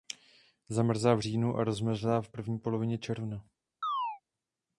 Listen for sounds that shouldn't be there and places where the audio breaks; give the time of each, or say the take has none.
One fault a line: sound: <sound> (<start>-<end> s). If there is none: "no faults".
sound: chirp (3.8-4.2 s)